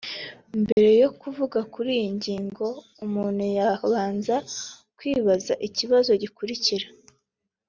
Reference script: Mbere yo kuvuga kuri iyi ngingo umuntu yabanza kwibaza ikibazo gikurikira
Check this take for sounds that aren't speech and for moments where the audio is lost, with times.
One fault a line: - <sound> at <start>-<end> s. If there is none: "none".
- dropout at 0.7-0.8 s